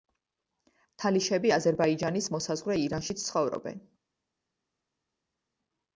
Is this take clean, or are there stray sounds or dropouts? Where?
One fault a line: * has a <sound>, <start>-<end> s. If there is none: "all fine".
all fine